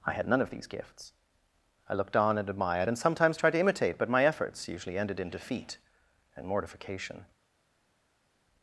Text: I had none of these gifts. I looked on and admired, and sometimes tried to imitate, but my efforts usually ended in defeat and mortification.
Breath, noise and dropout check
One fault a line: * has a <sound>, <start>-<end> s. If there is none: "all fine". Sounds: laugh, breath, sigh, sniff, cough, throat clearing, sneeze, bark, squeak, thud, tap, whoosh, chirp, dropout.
all fine